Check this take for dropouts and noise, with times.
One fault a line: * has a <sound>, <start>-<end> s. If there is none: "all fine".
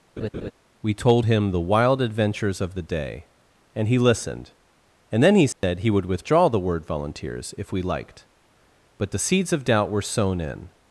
* has a laugh, 0.2-0.5 s
* has a dropout, 5.5-5.6 s